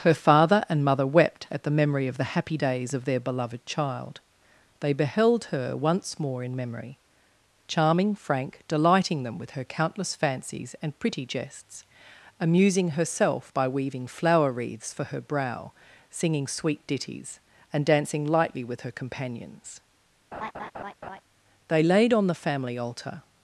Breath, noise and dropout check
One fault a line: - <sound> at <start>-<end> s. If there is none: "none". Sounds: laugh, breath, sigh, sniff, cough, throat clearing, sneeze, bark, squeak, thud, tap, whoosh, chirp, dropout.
- laugh at 20.3-21.2 s